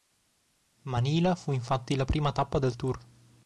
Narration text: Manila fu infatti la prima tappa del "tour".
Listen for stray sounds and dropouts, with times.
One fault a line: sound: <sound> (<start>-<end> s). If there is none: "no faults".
no faults